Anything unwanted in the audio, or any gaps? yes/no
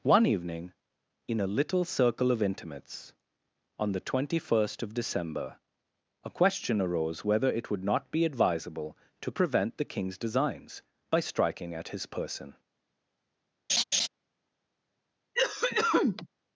yes